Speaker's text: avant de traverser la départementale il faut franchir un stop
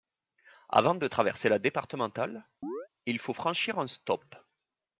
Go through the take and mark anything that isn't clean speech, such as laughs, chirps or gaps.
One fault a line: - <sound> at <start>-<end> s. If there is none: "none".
- chirp at 2.6-2.9 s